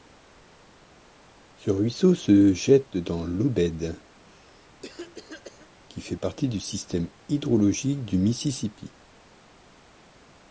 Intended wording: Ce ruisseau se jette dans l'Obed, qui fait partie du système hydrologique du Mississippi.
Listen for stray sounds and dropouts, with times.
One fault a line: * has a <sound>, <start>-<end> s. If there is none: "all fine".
* has a cough, 4.1-5.7 s